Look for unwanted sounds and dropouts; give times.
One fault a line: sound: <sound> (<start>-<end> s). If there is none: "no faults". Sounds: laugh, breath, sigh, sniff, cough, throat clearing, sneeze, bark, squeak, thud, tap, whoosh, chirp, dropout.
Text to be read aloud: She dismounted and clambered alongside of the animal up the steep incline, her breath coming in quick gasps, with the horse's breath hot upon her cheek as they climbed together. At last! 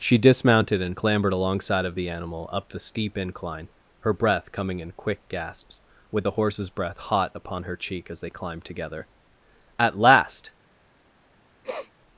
sound: sniff (11.6-11.9 s)